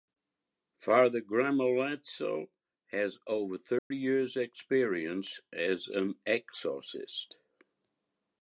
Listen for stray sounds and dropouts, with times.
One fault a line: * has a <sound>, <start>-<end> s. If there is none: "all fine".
* has a dropout, 3.8-3.9 s